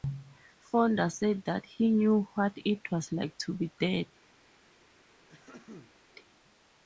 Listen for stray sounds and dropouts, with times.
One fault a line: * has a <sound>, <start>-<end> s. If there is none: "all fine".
* has a throat clearing, 5.3-5.9 s